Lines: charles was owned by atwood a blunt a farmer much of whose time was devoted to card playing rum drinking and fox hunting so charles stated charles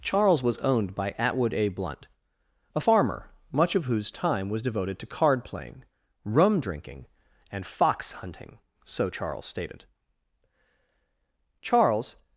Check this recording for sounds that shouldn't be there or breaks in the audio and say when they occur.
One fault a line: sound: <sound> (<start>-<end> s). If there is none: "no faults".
no faults